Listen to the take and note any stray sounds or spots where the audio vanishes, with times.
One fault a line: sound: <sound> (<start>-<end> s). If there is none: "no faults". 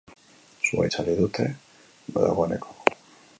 no faults